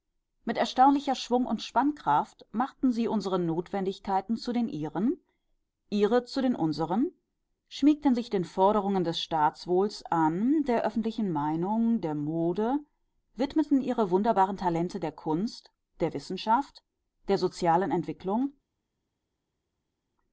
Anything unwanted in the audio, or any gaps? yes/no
no